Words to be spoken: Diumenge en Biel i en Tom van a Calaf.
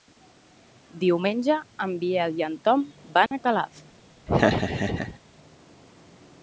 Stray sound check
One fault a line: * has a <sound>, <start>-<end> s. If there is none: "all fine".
* has a dropout, 3.3-3.3 s
* has a laugh, 4.3-5.2 s